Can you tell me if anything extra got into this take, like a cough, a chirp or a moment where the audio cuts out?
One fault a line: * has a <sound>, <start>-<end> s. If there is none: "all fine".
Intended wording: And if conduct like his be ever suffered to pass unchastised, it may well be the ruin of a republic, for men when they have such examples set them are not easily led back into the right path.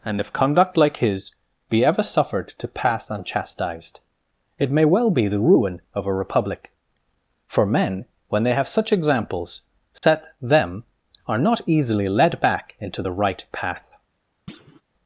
* has a dropout, 10.0-10.0 s
* has a thud, 14.5-14.8 s